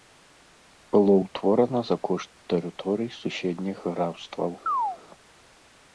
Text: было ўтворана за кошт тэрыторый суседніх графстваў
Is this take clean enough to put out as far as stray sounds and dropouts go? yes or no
no